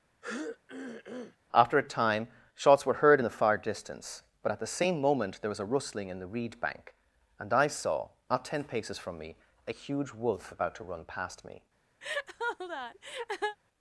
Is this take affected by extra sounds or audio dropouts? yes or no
yes